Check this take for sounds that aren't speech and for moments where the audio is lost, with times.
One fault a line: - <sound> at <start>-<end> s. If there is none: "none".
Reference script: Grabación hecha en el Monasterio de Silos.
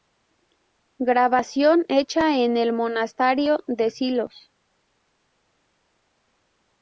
none